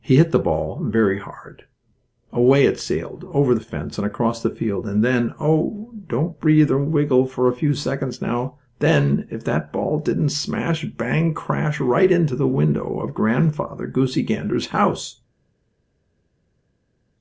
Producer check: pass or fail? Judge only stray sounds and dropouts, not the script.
pass